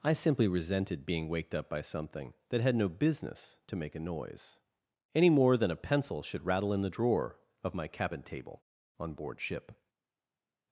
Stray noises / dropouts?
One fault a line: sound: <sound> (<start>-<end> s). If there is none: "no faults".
no faults